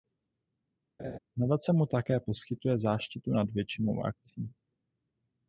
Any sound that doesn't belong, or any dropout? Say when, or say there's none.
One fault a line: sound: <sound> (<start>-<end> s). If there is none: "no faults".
sound: laugh (1.0-1.2 s)